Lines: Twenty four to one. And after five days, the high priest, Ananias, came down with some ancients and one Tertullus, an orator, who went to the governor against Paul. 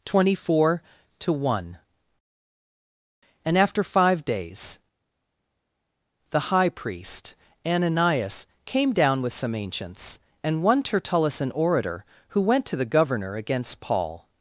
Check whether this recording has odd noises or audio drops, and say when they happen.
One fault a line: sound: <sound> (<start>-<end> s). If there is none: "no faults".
no faults